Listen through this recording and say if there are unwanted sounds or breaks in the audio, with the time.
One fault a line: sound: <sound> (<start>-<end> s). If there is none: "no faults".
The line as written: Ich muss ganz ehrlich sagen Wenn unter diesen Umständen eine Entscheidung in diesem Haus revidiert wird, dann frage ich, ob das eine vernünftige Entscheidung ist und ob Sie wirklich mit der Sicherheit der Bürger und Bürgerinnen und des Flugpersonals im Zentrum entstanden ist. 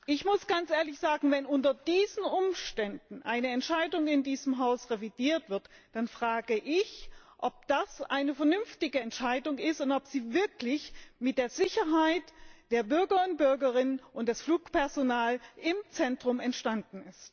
no faults